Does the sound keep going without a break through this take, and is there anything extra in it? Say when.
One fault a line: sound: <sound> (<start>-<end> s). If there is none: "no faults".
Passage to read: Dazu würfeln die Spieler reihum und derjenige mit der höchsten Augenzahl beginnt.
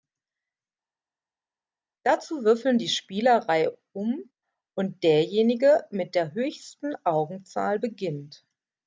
no faults